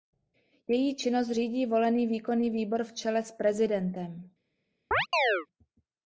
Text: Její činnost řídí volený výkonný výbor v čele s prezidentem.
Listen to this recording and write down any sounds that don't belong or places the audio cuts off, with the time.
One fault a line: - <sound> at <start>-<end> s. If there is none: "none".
- chirp at 4.9-5.5 s